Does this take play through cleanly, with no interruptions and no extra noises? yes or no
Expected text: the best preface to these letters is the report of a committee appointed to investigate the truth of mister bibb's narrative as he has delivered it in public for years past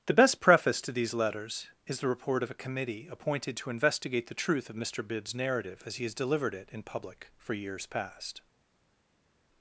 yes